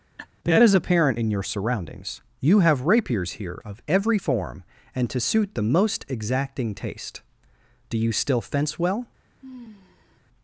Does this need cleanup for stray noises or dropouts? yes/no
yes